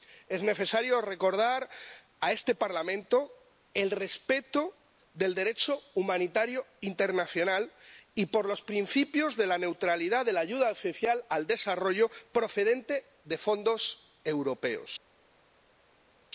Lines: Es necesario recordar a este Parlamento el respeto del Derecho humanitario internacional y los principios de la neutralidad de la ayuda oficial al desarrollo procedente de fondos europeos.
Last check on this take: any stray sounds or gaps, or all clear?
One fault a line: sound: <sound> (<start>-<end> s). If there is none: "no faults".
no faults